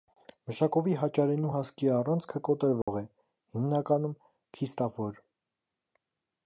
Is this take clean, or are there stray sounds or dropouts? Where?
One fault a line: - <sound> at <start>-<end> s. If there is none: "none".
- dropout at 2.8-2.9 s